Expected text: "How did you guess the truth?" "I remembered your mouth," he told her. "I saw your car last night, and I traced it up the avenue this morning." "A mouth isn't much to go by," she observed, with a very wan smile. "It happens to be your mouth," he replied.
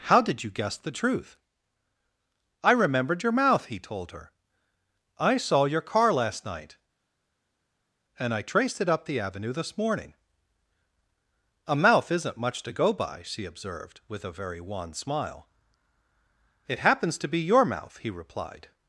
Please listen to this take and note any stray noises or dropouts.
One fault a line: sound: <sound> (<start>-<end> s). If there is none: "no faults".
no faults